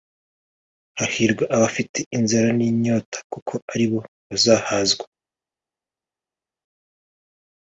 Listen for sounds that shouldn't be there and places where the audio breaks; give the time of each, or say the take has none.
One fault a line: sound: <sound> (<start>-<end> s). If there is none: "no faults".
no faults